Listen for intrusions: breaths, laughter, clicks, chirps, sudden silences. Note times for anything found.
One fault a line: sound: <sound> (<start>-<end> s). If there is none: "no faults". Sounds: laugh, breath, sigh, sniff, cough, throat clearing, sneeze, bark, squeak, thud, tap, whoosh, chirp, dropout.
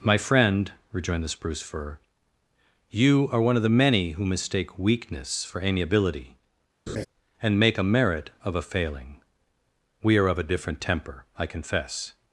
sound: laugh (6.9-7.1 s)